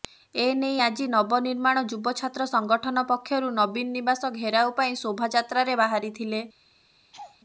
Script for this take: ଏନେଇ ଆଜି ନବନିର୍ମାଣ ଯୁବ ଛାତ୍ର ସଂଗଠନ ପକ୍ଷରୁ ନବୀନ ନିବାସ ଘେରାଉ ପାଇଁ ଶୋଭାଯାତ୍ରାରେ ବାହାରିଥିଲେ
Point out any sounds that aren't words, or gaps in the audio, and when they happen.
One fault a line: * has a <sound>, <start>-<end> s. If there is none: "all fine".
* has a laugh, 7.1-7.4 s